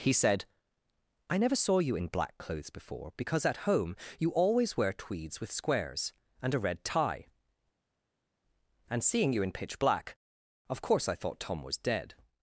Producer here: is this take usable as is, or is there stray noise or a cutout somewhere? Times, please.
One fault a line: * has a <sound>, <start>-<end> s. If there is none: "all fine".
all fine